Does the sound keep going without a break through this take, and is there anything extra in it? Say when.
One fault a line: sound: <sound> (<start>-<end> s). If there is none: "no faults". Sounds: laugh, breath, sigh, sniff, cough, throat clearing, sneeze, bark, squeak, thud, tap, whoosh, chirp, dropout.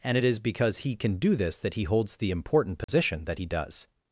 sound: dropout (2.8-2.9 s)